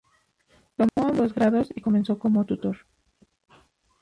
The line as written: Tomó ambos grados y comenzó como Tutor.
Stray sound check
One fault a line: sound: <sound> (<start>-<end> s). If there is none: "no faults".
sound: dropout (0.9-1.0 s)